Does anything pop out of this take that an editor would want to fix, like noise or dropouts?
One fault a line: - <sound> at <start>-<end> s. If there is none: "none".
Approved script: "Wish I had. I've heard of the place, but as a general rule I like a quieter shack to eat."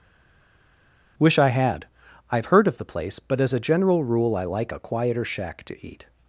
none